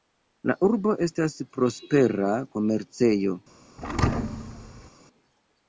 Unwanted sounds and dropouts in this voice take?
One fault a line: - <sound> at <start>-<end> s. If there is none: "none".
- thud at 3.8-4.9 s